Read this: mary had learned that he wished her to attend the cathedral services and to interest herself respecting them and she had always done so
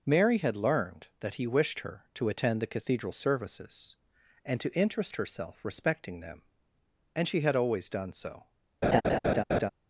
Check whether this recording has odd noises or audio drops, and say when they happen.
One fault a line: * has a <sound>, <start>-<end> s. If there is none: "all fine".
* has a laugh, 8.8-9.7 s